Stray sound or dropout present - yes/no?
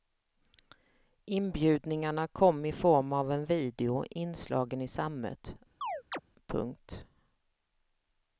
yes